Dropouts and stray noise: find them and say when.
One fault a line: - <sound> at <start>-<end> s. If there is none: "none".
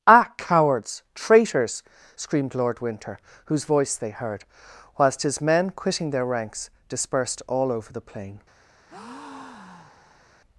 - breath at 8.9-10.3 s